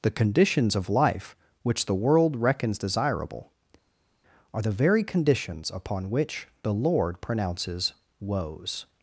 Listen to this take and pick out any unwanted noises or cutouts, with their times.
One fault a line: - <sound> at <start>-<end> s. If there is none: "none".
none